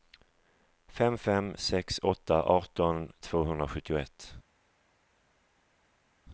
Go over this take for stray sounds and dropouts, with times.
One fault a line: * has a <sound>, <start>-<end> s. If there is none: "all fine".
all fine